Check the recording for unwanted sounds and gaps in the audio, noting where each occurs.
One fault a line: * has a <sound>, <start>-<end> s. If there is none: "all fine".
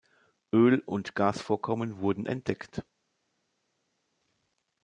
all fine